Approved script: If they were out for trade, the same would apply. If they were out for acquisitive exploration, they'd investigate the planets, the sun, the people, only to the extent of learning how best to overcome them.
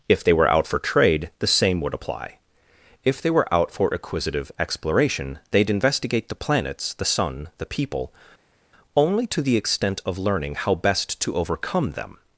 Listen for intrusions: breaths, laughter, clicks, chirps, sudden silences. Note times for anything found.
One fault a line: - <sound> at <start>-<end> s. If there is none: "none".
none